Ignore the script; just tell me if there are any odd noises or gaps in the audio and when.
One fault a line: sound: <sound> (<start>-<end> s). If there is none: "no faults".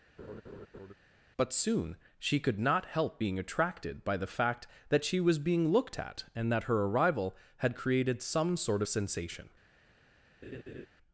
sound: laugh (0.2-0.9 s)
sound: laugh (10.4-10.9 s)